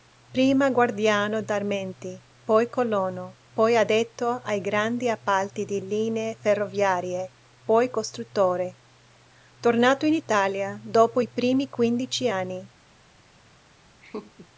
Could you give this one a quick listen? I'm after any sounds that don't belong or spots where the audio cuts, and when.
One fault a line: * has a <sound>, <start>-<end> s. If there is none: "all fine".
* has a laugh, 14.0-14.5 s